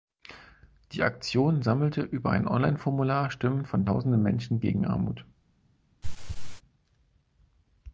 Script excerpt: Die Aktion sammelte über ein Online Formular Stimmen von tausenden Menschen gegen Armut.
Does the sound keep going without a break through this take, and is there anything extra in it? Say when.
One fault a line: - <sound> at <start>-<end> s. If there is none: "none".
- throat clearing at 6.0-6.6 s